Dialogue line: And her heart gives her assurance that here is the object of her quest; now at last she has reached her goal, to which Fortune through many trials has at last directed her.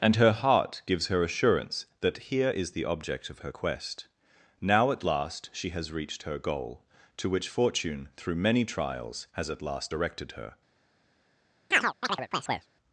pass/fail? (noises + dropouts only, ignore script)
fail